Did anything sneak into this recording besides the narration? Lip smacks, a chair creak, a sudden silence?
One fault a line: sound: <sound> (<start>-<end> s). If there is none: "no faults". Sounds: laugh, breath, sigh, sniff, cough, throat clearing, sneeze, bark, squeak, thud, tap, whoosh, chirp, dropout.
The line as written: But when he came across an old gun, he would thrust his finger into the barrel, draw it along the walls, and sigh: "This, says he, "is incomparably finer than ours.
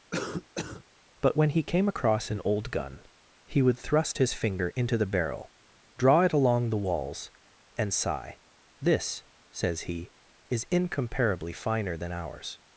sound: cough (0.1-0.8 s)